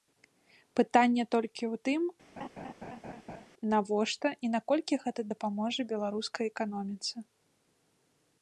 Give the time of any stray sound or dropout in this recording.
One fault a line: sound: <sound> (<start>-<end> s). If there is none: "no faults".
sound: laugh (2.4-3.5 s)